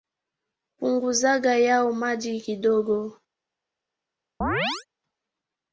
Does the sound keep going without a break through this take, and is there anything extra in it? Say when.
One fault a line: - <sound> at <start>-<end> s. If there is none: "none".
- chirp at 4.4-4.9 s